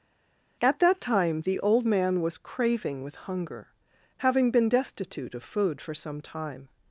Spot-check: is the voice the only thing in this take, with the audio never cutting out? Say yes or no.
yes